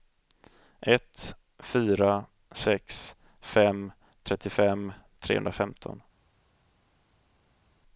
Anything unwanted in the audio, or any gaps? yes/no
no